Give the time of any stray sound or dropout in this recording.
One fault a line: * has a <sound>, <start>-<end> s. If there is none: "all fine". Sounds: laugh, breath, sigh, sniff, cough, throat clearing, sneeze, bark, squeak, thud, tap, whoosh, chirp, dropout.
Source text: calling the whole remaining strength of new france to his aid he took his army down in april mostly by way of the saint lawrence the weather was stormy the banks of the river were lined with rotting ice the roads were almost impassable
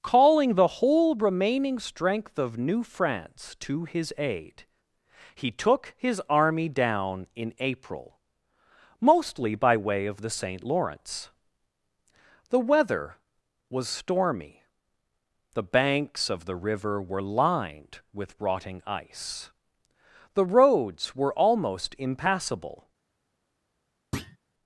* has a thud, 24.1-24.4 s